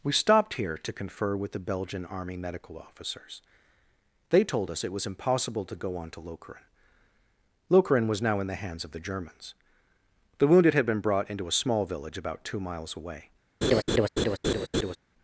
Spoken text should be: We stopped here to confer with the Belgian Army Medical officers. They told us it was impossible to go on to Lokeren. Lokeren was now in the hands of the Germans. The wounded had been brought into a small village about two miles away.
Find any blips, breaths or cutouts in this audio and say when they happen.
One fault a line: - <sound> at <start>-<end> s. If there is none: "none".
- laugh at 13.6-15.0 s